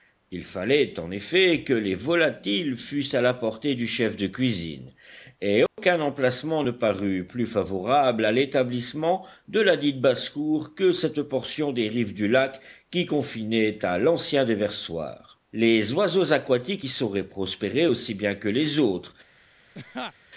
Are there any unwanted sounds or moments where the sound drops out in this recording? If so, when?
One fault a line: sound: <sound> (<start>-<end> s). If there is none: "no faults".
sound: dropout (5.7-5.8 s)
sound: laugh (19.7-20.1 s)